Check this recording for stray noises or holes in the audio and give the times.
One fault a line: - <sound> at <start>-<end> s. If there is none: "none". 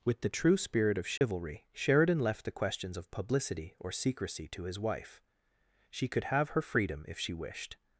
- dropout at 1.2-1.2 s